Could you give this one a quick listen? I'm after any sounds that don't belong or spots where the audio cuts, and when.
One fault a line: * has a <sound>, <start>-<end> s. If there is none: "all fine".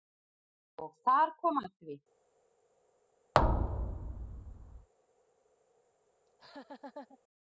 * has a thud, 3.3-4.9 s
* has a laugh, 6.3-7.2 s